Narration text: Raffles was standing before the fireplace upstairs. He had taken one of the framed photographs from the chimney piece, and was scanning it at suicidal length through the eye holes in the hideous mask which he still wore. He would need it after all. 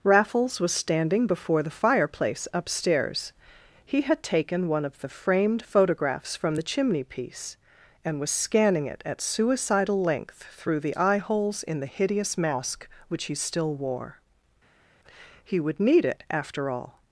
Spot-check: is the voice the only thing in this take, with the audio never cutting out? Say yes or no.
yes